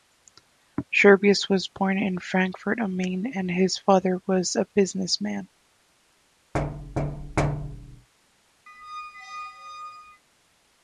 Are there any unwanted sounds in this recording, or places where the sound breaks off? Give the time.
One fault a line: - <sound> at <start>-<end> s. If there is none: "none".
- thud at 6.5-8.1 s
- squeak at 8.7-10.2 s